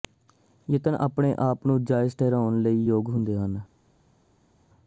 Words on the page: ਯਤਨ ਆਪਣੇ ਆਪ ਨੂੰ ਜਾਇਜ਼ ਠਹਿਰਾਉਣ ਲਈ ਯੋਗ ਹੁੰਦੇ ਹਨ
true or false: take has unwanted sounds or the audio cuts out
false